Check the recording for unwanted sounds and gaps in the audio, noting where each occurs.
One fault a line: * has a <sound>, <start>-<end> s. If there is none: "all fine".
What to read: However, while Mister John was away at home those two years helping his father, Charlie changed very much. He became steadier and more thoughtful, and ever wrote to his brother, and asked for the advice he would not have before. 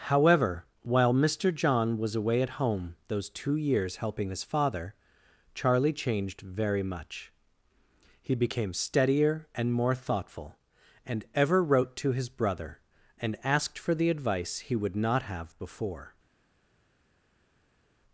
all fine